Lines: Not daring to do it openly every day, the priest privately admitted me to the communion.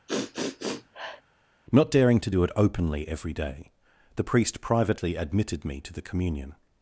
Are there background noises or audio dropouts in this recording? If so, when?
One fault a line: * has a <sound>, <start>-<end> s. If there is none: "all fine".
* has a sniff, 0.1-1.2 s